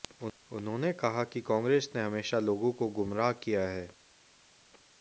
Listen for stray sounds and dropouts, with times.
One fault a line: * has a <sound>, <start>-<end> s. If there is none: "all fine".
all fine